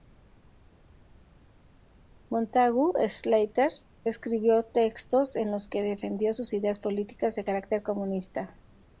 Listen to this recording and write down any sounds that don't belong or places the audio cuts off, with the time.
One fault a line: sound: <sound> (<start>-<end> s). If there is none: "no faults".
no faults